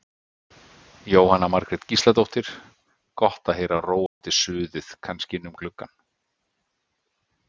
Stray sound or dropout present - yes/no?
yes